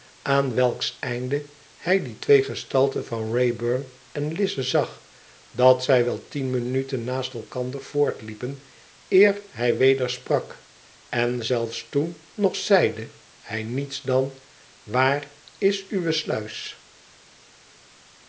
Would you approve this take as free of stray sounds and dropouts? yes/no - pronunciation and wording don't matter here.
yes